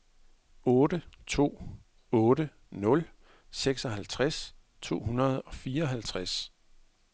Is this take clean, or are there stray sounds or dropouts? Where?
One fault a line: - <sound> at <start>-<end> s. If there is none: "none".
none